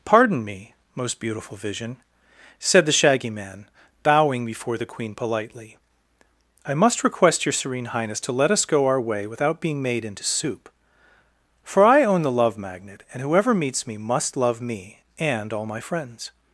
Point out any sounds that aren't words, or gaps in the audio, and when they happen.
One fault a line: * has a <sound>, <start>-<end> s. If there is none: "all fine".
all fine